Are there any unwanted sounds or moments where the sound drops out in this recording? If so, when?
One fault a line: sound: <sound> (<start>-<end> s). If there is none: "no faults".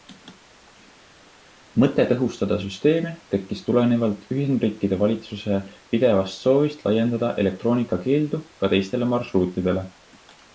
no faults